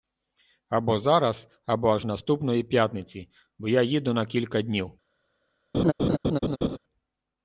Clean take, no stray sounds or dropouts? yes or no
no